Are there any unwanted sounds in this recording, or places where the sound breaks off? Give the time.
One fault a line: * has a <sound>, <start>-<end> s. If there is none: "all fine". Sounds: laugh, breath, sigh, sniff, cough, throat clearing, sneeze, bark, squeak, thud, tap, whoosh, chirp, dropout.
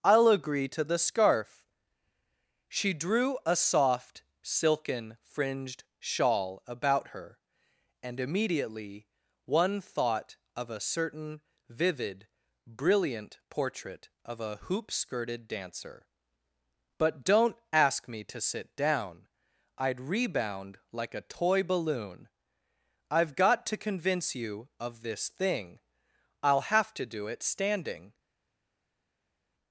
all fine